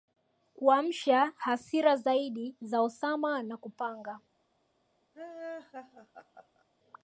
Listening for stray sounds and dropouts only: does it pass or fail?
fail